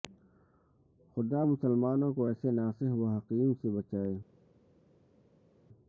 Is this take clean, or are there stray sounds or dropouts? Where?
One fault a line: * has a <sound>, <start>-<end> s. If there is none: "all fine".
all fine